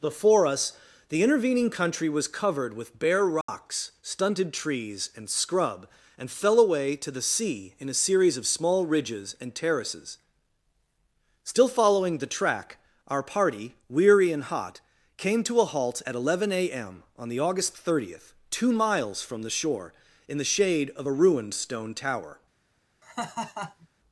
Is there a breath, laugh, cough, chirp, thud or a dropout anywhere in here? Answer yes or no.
yes